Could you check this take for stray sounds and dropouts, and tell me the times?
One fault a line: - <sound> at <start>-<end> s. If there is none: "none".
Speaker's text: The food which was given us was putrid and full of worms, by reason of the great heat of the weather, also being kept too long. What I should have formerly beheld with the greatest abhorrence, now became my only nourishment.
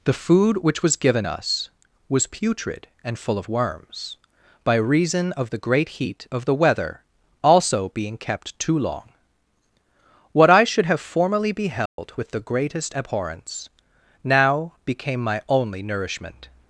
- dropout at 11.9-12.0 s